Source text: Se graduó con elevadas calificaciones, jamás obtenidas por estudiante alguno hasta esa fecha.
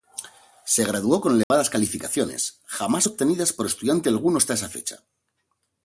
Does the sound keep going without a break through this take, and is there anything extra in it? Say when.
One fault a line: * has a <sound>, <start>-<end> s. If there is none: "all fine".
* has a dropout, 1.4-1.5 s